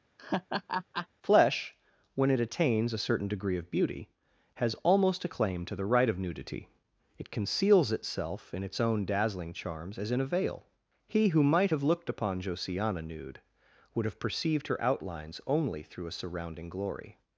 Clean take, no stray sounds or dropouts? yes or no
no